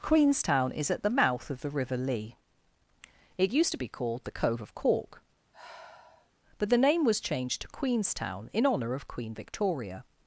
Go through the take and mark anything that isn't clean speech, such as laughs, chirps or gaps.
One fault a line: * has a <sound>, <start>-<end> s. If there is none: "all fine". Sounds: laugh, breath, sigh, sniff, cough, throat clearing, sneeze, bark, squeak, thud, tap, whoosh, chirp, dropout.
* has a sigh, 5.5-6.3 s